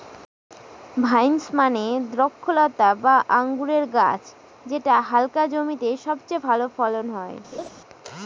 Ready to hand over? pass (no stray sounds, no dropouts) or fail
fail